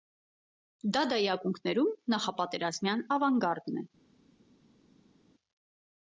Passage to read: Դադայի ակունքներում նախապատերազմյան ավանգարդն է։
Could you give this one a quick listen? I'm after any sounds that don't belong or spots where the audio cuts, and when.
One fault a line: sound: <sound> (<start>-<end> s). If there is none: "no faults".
no faults